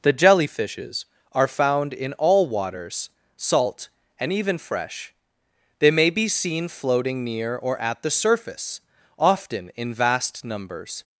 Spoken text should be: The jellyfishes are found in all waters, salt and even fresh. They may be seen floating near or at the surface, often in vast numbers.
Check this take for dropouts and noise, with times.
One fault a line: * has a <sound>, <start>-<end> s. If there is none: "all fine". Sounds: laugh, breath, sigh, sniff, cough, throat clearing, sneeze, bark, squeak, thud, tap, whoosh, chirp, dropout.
all fine